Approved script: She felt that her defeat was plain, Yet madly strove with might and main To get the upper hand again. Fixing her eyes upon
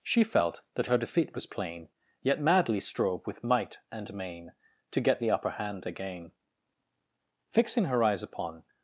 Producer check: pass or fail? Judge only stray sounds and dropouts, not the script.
pass